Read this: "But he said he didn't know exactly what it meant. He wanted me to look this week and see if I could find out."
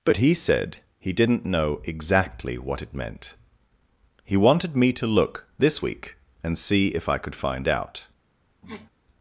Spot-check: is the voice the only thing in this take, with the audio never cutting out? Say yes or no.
no